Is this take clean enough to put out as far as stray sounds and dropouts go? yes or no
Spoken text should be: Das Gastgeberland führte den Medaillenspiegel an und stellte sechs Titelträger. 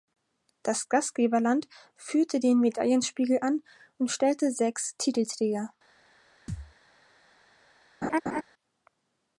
no